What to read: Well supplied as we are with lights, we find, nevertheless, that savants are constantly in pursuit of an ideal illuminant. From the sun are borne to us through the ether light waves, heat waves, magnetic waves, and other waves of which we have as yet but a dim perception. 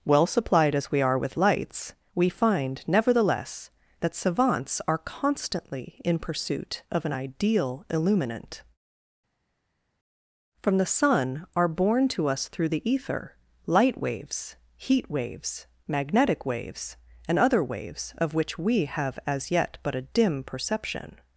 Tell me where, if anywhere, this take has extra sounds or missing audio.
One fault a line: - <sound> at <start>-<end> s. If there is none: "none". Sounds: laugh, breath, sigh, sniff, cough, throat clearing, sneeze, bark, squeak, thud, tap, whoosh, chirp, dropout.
none